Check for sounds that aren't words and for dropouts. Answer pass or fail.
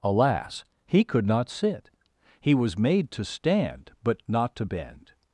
pass